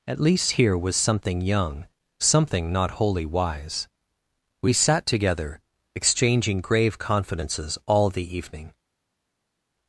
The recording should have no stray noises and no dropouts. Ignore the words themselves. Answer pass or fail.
pass